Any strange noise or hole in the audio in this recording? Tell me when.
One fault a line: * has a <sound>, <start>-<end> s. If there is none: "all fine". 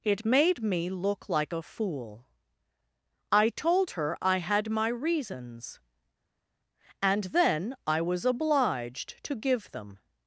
all fine